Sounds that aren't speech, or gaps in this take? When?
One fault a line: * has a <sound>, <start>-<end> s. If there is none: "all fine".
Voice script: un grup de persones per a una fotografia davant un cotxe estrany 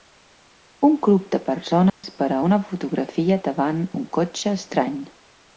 * has a dropout, 1.9-2.0 s